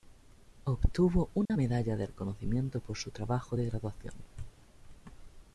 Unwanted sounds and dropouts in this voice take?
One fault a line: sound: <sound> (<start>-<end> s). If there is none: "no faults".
sound: dropout (1.5-1.5 s)